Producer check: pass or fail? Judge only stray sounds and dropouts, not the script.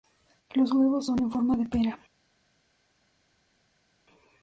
pass